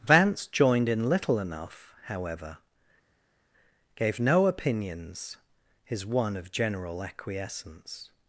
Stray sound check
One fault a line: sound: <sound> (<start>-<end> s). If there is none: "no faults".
no faults